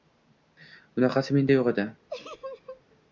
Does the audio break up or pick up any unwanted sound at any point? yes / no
yes